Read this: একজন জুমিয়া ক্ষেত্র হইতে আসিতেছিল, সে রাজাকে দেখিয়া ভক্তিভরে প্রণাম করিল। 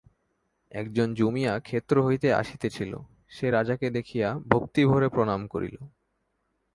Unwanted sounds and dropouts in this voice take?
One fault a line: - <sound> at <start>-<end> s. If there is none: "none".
none